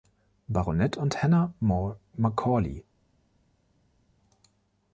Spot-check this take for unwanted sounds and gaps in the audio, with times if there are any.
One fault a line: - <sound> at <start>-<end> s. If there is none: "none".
none